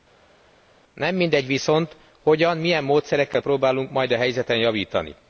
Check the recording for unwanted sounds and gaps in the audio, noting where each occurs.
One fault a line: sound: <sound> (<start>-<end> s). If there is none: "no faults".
no faults